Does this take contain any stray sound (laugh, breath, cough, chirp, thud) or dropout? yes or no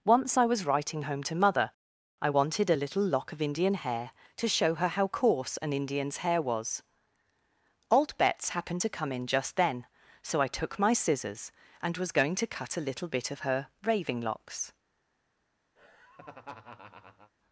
yes